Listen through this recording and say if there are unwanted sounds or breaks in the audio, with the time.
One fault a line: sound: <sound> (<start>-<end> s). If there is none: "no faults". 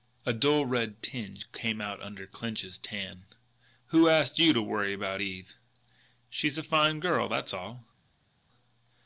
no faults